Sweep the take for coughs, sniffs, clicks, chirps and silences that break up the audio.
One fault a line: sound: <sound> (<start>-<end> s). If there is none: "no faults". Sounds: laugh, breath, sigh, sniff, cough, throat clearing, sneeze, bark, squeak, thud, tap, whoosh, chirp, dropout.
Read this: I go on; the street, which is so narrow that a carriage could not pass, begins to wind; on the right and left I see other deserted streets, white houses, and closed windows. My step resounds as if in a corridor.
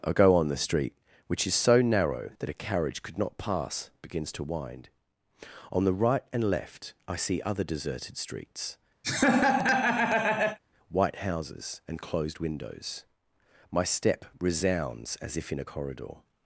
sound: laugh (9.0-10.6 s)